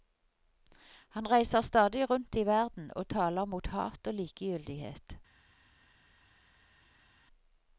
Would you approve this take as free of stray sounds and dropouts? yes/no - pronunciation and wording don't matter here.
yes